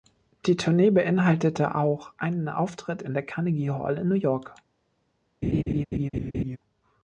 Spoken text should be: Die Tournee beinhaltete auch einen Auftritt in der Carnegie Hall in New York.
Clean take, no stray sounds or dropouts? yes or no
no